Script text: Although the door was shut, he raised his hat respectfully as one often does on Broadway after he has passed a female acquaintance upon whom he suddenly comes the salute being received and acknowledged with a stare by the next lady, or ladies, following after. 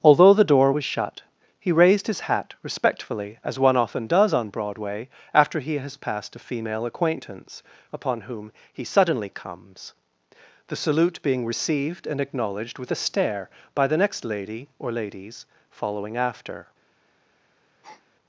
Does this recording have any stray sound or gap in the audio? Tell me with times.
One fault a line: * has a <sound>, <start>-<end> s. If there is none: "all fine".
* has a breath, 17.8-18.1 s